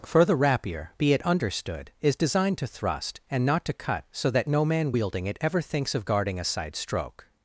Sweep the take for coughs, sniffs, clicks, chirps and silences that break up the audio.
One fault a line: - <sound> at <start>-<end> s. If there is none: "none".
none